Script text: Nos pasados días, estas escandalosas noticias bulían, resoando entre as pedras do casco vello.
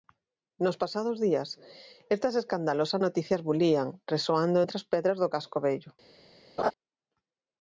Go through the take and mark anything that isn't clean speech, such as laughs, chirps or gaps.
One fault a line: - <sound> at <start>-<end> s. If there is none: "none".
- laugh at 6.6-6.7 s